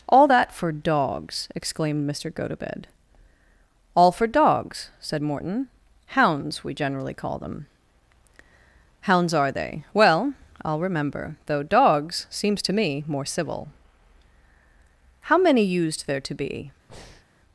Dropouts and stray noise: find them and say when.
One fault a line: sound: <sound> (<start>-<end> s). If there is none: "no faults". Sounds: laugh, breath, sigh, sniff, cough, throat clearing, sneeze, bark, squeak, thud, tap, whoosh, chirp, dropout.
sound: breath (16.9-17.2 s)